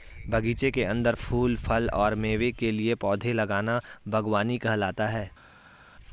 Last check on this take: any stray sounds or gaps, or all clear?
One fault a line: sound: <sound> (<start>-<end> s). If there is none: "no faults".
no faults